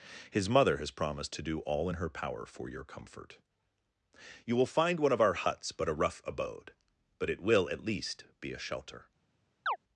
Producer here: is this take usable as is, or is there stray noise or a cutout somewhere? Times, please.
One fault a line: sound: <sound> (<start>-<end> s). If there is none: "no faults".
sound: chirp (9.7-9.8 s)